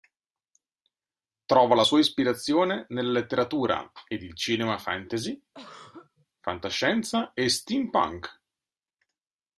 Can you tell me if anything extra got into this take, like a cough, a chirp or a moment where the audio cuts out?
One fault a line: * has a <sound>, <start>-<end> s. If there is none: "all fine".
* has a throat clearing, 5.5-6.3 s